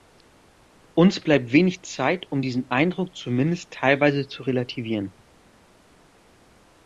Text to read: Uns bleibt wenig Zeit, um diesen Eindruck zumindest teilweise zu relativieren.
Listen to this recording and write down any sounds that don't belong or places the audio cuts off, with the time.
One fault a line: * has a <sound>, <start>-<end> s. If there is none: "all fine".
all fine